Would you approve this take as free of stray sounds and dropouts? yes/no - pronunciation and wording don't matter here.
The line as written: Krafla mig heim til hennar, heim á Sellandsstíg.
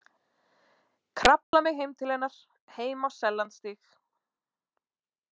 no